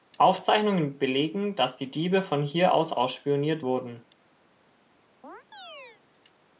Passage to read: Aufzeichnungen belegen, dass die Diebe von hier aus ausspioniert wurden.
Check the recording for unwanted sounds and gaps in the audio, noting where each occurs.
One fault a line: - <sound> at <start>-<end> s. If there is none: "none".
- chirp at 5.2-6.0 s